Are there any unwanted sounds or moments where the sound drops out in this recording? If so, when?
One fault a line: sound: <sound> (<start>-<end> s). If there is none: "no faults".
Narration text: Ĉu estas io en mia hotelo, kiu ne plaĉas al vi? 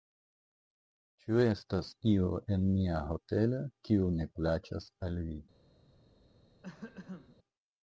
sound: throat clearing (6.6-7.4 s)